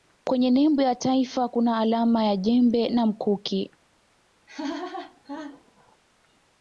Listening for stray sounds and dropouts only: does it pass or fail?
fail